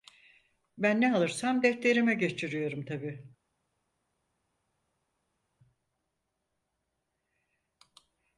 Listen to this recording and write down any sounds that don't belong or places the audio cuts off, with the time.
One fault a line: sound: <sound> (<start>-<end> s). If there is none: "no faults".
no faults